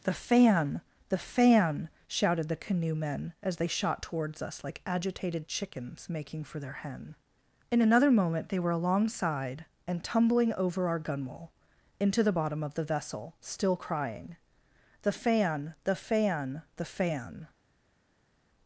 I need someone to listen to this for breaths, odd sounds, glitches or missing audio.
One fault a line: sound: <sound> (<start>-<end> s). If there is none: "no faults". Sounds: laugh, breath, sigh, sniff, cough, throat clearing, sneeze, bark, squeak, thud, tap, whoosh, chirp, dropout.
no faults